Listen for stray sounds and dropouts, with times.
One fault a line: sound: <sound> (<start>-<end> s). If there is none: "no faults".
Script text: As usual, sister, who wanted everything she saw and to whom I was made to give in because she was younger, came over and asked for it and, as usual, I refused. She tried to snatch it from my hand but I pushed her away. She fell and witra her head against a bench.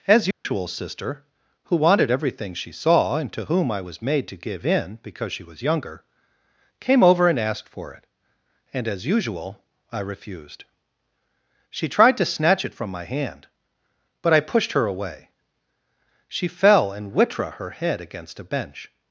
sound: dropout (0.3-0.5 s)